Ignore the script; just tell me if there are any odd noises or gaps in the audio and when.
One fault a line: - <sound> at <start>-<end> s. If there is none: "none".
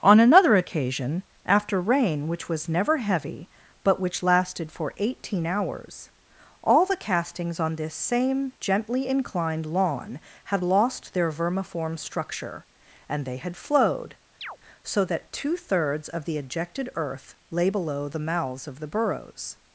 - chirp at 14.4-14.6 s